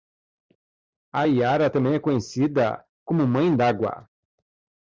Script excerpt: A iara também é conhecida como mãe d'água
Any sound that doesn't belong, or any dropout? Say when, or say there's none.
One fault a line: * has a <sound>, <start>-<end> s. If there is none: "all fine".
all fine